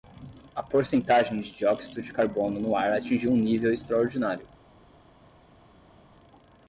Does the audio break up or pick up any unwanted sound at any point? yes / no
no